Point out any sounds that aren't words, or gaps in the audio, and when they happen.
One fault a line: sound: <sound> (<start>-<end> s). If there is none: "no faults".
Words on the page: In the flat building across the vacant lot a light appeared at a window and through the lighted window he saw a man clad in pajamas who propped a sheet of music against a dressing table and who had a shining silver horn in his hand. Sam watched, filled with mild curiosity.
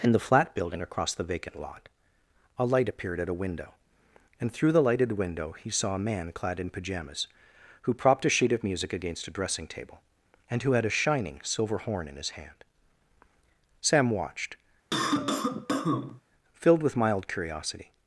sound: cough (14.9-16.2 s)